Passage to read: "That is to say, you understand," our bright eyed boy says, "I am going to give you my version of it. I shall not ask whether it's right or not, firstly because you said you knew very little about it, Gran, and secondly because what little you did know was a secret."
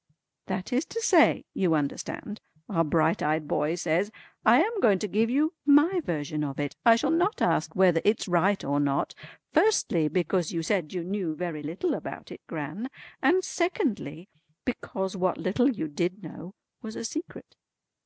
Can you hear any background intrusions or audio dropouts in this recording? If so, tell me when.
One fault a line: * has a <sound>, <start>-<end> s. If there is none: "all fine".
all fine